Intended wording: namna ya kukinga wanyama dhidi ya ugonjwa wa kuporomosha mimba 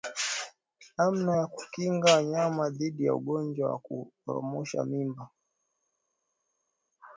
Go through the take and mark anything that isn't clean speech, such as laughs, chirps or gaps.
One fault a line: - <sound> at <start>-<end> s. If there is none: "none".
none